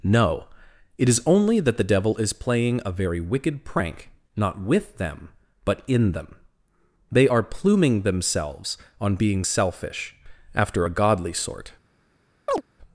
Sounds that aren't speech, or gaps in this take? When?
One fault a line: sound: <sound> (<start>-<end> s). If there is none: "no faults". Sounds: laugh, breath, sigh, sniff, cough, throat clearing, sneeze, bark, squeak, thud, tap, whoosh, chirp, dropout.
sound: chirp (12.5-12.6 s)